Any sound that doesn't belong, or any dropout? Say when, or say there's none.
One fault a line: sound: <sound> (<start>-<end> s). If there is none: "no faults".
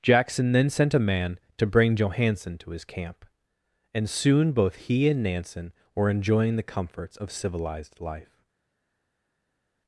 no faults